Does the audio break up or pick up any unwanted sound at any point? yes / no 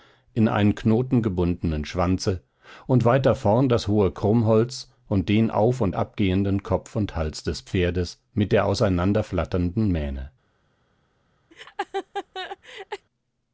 yes